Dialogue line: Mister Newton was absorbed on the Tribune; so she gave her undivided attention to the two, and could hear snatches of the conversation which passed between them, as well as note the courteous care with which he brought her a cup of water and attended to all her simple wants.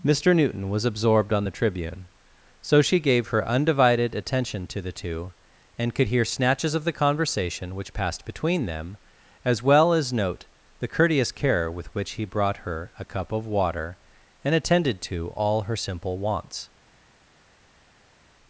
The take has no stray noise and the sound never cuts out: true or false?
true